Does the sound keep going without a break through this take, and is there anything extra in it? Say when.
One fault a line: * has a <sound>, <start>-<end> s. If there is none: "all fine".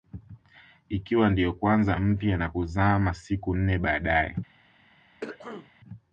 * has a throat clearing, 5.2-5.7 s